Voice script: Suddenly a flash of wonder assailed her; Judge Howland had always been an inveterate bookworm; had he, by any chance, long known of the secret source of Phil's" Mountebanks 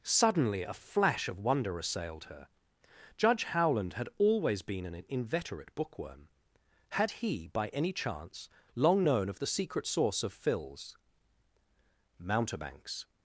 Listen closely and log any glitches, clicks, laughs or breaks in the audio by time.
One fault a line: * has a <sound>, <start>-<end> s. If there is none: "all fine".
all fine